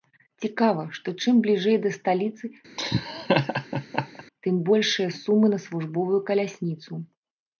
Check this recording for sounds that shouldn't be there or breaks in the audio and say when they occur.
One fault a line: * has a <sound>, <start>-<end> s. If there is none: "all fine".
* has a laugh, 2.8-4.2 s